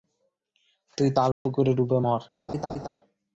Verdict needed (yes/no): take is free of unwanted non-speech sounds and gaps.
no